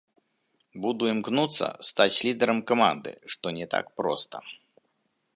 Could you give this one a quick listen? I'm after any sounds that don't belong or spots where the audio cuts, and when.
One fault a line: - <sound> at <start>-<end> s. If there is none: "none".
none